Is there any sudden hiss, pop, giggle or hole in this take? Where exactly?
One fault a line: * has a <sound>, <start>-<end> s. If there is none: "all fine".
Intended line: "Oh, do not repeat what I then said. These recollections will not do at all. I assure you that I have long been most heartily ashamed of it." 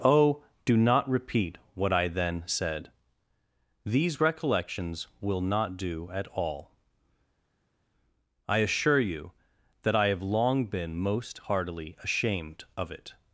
all fine